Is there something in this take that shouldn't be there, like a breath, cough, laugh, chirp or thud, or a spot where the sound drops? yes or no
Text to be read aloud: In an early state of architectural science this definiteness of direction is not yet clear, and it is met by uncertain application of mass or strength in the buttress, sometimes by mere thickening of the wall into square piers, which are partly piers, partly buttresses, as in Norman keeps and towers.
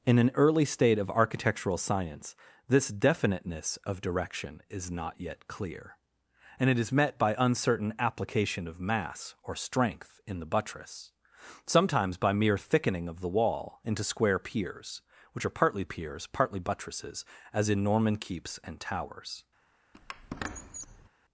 yes